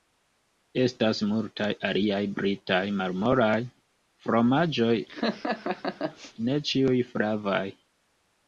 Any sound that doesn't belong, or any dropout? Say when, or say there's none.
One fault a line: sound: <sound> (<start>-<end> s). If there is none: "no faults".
sound: laugh (5.1-6.3 s)